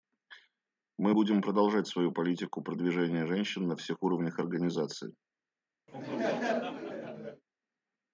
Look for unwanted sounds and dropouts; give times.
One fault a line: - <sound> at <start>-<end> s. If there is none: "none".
- laugh at 5.9-7.4 s